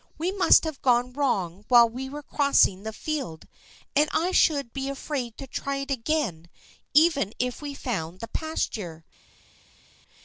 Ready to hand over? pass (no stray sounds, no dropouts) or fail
pass